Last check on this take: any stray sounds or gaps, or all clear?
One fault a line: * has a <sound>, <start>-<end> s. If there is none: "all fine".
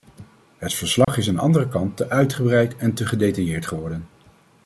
* has a dropout, 1.0-1.1 s